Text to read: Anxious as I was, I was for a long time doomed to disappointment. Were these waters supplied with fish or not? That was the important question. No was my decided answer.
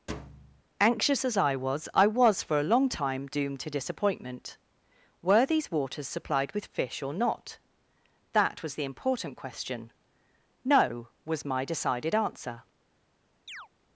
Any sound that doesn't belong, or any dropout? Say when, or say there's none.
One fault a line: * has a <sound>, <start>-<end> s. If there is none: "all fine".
* has a thud, 0.1-0.6 s
* has a chirp, 13.5-13.7 s